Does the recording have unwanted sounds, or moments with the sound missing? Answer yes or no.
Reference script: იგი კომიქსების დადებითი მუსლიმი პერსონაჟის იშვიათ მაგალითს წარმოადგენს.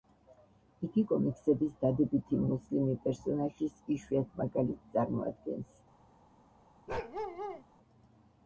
yes